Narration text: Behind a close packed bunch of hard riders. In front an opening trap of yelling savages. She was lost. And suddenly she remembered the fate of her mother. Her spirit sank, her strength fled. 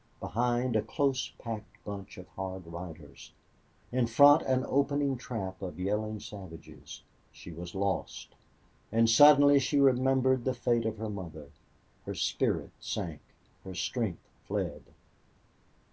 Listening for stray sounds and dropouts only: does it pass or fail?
pass